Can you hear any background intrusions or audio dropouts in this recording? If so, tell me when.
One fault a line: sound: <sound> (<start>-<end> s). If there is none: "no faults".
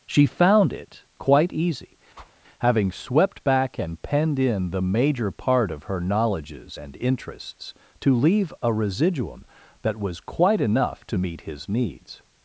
sound: whoosh (2.1-2.4 s)